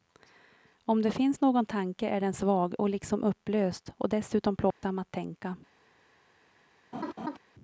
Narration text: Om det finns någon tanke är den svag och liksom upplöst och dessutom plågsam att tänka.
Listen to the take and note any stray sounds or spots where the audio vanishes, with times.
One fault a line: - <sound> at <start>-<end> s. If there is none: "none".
- dropout at 4.7-4.8 s
- laugh at 6.9-7.4 s